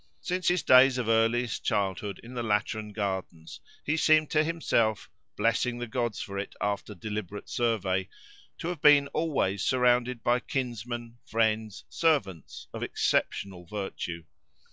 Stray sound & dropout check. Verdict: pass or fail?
pass